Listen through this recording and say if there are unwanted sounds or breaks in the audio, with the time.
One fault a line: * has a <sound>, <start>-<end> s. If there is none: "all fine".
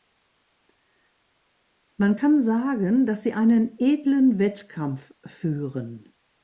all fine